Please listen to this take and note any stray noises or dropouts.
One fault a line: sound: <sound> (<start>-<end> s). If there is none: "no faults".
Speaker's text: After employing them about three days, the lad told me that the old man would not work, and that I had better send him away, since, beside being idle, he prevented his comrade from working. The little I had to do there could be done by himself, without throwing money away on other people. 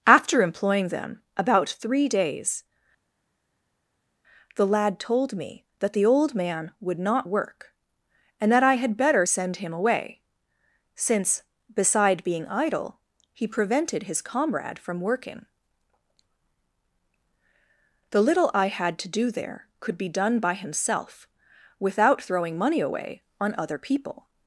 no faults